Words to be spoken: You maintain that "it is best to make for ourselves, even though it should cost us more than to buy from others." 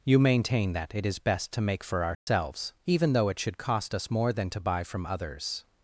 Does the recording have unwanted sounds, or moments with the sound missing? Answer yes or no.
yes